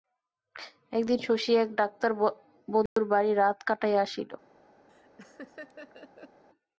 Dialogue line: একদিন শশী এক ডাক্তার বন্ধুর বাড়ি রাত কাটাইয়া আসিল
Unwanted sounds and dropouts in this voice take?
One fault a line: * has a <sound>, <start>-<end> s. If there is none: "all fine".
* has a dropout, 2.9-3.0 s
* has a laugh, 4.9-6.4 s